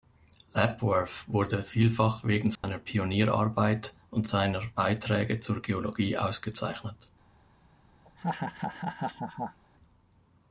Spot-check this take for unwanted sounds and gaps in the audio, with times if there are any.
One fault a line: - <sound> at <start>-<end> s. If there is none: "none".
- dropout at 2.6-2.6 s
- laugh at 8.0-9.6 s